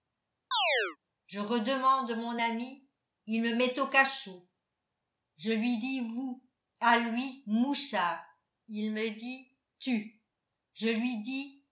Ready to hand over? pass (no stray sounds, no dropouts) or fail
fail